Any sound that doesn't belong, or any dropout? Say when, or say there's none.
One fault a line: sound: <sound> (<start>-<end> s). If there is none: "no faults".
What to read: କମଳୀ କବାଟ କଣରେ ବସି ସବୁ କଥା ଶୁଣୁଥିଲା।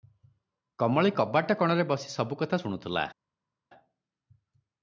no faults